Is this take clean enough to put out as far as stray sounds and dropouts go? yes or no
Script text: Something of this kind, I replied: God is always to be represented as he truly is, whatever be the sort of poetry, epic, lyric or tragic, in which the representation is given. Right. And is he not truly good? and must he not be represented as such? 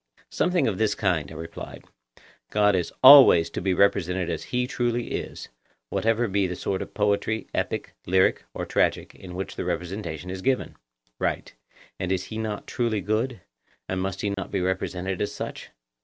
no